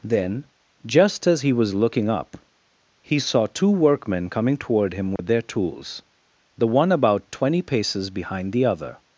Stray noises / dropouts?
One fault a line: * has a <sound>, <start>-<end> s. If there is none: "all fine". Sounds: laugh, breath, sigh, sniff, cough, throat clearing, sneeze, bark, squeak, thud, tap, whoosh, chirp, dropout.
* has a dropout, 5.2-5.2 s